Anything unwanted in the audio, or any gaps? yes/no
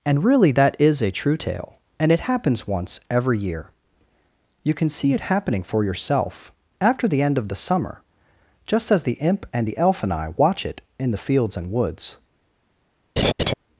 yes